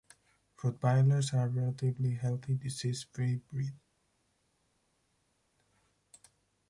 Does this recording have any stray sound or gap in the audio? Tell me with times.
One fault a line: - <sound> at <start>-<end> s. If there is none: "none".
none